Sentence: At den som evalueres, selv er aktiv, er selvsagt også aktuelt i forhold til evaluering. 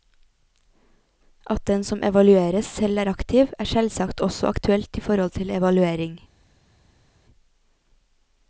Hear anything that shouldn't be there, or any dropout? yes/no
no